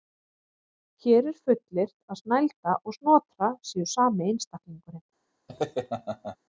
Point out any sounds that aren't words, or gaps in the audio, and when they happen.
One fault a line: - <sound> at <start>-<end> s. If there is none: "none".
- laugh at 5.5-6.4 s